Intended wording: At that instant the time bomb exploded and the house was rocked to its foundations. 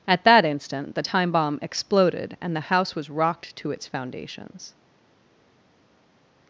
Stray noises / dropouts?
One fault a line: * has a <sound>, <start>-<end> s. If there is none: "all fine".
all fine